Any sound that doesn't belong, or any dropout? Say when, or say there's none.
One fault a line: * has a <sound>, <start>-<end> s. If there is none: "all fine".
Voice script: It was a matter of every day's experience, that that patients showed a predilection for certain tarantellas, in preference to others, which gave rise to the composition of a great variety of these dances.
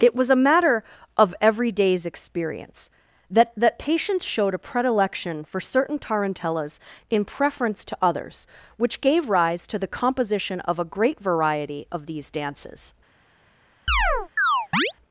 * has a chirp, 13.9-14.9 s